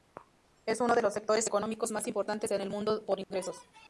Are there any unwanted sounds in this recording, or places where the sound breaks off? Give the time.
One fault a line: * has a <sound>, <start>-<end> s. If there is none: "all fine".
* has a dropout, 3.2-3.3 s